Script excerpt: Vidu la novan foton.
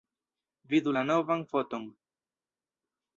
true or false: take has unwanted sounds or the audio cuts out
false